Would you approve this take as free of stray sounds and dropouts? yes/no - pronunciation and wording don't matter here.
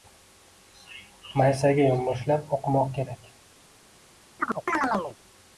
no